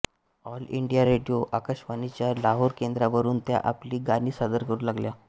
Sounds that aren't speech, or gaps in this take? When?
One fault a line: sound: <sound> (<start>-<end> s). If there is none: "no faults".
no faults